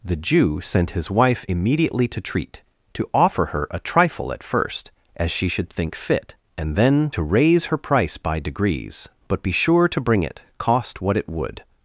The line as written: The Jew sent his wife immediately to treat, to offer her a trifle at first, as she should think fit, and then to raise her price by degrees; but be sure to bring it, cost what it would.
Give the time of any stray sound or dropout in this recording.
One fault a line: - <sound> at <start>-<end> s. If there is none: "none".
none